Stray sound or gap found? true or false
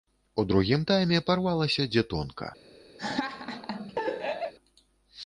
true